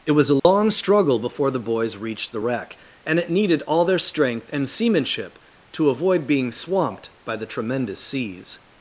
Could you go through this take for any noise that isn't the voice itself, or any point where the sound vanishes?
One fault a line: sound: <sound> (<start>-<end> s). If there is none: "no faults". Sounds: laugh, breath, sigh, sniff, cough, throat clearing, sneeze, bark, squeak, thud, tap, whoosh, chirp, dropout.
sound: dropout (0.4-0.4 s)